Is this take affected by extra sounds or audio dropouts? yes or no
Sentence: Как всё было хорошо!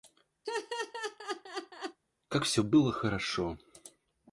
yes